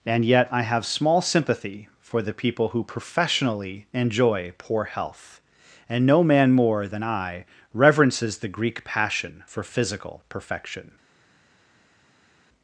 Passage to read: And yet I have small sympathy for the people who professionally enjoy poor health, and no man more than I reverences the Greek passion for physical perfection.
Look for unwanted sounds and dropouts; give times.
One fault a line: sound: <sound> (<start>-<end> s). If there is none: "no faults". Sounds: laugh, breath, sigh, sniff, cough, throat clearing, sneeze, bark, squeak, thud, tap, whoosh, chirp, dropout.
no faults